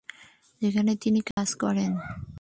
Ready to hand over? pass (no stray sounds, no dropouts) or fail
fail